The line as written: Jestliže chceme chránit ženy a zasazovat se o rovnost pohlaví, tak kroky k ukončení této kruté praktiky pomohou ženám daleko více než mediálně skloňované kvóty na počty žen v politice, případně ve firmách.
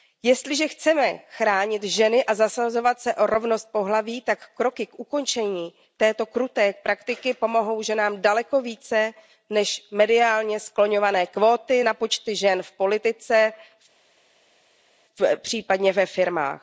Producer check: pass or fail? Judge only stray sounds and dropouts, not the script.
pass